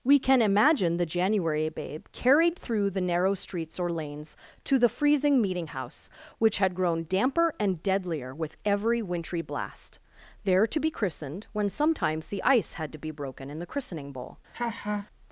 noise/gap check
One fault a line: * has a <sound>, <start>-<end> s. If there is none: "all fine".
* has a laugh, 14.5-15.1 s